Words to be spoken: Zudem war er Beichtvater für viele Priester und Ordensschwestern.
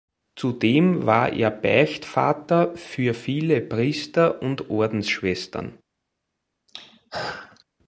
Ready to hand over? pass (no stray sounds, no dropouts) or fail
fail